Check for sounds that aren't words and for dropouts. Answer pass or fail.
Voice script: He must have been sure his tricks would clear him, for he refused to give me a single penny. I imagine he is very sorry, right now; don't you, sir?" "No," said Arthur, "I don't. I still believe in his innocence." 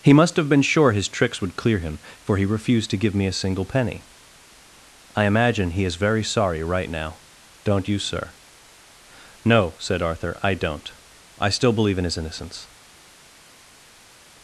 pass